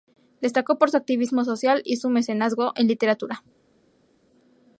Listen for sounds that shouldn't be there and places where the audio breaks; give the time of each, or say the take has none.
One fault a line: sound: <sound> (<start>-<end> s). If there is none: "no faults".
no faults